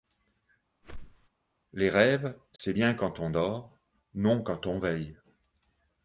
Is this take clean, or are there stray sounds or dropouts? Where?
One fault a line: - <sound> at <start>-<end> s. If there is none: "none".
- whoosh at 0.8-1.3 s
- dropout at 2.6-2.6 s